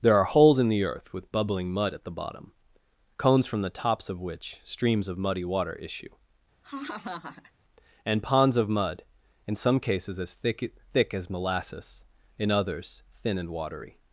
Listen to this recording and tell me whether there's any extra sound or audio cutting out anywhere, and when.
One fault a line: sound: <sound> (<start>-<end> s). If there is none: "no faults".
sound: laugh (6.6-7.5 s)